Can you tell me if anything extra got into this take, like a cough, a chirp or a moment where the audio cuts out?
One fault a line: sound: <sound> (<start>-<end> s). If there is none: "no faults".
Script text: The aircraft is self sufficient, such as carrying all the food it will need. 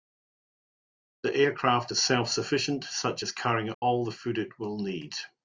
sound: dropout (3.7-3.8 s)